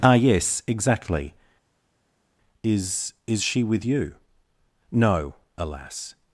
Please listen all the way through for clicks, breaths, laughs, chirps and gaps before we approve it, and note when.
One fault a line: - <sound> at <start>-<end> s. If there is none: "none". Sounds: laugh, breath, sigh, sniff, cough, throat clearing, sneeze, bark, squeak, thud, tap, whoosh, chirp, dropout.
none